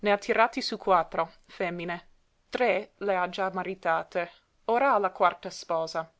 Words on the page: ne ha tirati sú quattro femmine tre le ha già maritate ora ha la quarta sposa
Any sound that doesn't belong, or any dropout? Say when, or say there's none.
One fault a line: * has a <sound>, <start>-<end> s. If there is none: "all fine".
all fine